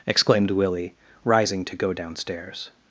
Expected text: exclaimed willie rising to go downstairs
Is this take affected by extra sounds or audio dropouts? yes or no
no